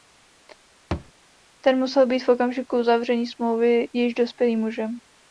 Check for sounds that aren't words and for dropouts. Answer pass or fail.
fail